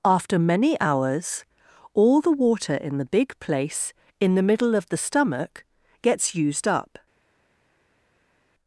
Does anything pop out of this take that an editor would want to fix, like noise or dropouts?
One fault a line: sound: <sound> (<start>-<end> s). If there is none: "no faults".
no faults